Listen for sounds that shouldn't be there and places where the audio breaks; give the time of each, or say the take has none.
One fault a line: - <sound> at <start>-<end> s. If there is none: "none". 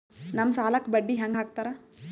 none